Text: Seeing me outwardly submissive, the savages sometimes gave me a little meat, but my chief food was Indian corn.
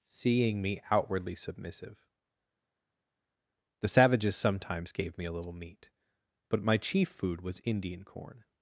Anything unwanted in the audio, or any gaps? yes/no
no